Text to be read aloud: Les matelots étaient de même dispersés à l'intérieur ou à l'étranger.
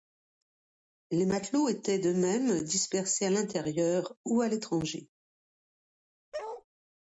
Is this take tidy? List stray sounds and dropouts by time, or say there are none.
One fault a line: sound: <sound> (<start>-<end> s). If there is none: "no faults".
sound: bark (6.3-6.6 s)